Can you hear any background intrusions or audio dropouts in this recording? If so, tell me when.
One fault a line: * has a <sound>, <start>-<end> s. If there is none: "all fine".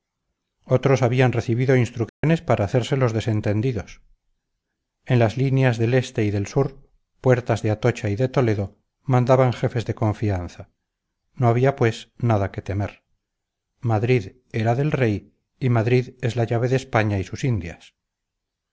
* has a dropout, 2.1-2.2 s